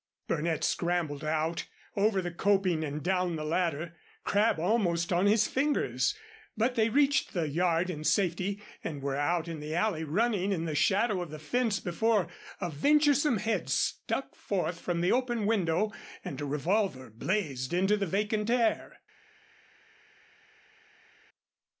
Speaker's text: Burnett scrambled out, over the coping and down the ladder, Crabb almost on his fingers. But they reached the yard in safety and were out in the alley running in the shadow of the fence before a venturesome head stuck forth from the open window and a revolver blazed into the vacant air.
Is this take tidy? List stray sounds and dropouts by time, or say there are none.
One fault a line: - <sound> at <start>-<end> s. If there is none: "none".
none